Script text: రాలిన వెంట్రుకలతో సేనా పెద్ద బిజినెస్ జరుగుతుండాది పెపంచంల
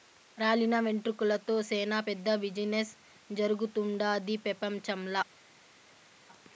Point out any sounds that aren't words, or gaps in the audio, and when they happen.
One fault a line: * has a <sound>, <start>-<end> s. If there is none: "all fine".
all fine